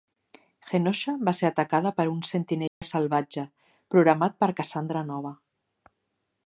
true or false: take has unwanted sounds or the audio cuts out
true